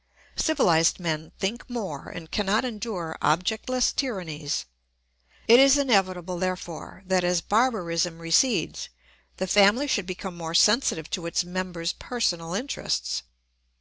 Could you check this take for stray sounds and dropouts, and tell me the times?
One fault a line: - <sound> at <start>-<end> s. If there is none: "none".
none